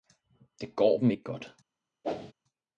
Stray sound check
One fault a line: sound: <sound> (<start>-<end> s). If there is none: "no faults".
sound: whoosh (2.0-2.3 s)